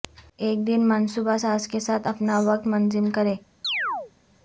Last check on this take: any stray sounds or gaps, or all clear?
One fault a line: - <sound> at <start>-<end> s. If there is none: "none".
- chirp at 3.6-4.1 s